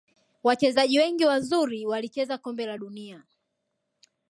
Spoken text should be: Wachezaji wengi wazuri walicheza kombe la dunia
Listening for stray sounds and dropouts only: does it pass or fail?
pass